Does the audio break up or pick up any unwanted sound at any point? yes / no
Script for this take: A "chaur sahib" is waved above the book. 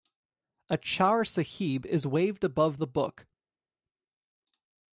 no